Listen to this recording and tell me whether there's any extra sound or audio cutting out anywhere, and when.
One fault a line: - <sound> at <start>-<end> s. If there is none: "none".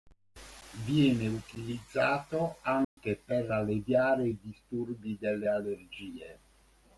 - dropout at 2.8-3.0 s